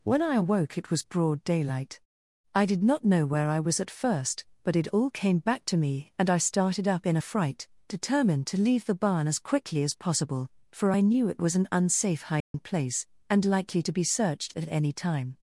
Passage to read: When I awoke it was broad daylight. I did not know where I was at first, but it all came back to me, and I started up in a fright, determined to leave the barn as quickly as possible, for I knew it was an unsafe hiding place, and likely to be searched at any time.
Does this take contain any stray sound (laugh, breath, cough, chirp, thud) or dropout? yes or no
yes